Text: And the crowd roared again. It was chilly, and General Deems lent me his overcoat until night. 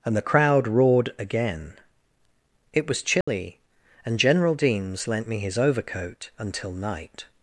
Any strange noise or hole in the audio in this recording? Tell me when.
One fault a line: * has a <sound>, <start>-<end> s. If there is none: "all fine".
* has a dropout, 3.2-3.3 s